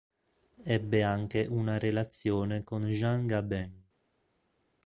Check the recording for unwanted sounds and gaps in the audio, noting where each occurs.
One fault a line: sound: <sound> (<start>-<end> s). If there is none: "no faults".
no faults